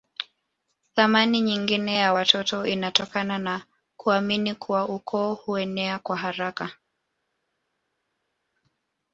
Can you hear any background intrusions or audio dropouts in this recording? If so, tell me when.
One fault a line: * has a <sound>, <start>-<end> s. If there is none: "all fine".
all fine